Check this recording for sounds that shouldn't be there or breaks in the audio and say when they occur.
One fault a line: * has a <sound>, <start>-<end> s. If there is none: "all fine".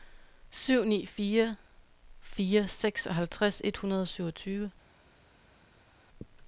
all fine